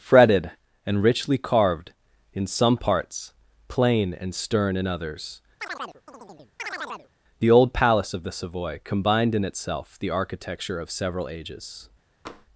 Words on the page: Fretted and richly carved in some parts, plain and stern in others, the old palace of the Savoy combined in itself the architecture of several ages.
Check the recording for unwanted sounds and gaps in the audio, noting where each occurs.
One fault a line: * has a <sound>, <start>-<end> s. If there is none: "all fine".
* has a chirp, 5.6-7.1 s
* has a tap, 12.3-12.5 s